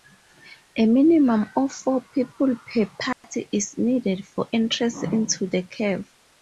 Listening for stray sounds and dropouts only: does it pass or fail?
fail